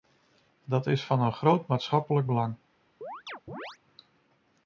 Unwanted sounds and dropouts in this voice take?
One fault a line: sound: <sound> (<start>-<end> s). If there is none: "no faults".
sound: chirp (3.0-3.8 s)